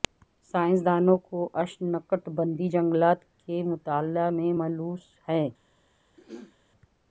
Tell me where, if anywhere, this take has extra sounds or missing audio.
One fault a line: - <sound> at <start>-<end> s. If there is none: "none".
- throat clearing at 6.2-6.6 s